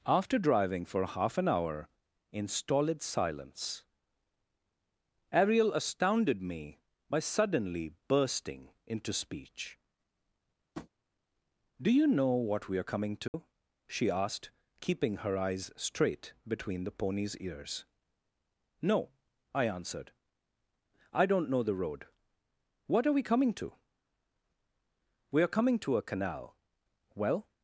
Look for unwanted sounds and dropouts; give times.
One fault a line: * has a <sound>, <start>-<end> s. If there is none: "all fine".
* has a tap, 10.7-10.9 s
* has a dropout, 13.3-13.3 s